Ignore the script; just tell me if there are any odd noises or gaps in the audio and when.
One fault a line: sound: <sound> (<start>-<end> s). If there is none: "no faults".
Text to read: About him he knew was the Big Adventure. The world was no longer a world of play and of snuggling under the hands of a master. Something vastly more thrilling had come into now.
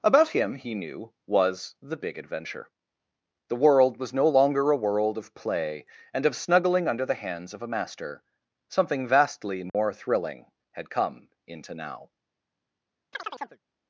sound: dropout (9.7-9.7 s)
sound: chirp (13.1-13.6 s)